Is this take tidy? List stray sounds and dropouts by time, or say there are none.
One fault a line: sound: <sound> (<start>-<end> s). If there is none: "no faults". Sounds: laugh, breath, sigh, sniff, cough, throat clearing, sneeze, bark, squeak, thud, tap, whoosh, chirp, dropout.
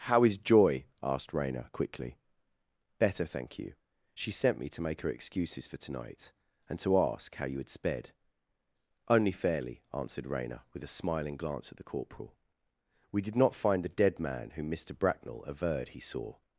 no faults